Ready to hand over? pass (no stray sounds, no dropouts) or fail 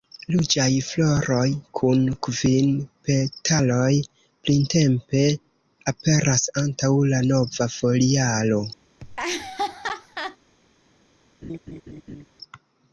fail